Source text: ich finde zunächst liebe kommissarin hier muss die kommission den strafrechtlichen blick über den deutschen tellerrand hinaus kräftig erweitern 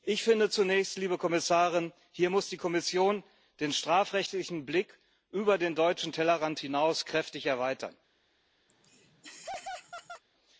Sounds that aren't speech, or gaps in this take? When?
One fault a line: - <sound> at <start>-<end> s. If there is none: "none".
- laugh at 8.7-10.2 s